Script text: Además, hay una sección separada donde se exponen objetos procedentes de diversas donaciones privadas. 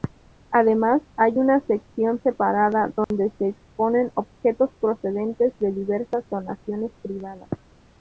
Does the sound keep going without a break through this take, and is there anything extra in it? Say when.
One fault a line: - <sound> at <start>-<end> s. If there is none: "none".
- dropout at 3.0-3.1 s